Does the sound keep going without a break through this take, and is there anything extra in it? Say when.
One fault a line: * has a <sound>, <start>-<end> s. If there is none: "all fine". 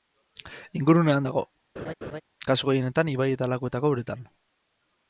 * has a laugh, 1.8-2.2 s